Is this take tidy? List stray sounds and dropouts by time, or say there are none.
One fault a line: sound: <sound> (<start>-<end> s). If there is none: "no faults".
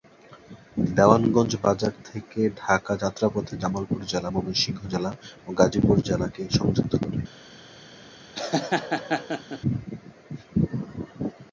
sound: laugh (8.3-9.6 s)